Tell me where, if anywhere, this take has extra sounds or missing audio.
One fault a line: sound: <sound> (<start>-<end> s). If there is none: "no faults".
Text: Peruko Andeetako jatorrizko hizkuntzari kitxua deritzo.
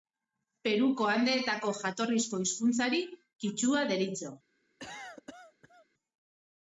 sound: cough (4.8-5.9 s)